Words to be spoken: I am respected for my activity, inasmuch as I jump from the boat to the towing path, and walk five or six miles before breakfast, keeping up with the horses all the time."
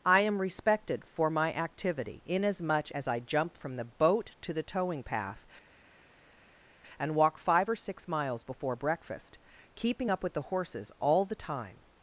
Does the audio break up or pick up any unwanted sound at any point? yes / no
no